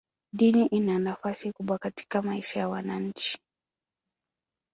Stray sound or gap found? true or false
false